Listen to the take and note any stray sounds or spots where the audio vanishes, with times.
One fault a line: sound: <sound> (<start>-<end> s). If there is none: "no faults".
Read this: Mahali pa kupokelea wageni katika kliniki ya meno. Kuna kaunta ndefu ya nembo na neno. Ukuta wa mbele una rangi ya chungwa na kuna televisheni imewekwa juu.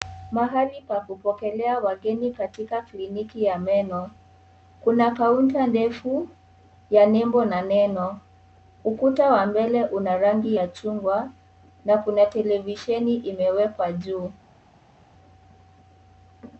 no faults